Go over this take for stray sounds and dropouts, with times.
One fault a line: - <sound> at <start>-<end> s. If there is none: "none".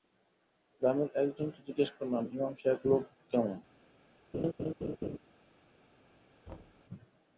- laugh at 4.3-5.2 s
- thud at 6.5-6.8 s